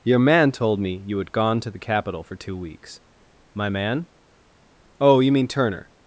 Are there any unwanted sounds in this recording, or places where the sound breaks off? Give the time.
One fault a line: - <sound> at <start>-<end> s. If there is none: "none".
none